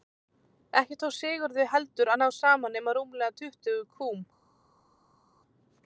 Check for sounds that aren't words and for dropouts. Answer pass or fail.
pass